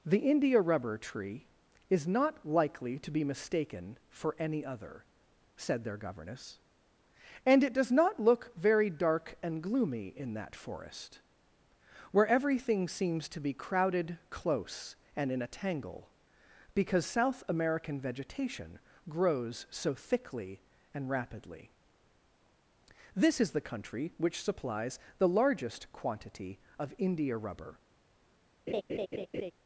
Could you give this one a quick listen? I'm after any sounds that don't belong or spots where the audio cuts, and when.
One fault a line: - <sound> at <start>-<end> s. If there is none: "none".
- laugh at 28.7-29.5 s